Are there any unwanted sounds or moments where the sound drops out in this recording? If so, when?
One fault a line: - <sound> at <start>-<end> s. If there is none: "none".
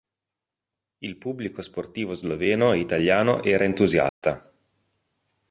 - dropout at 4.1-4.2 s